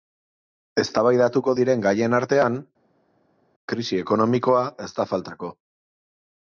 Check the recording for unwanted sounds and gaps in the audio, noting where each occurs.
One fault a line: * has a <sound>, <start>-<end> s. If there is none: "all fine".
all fine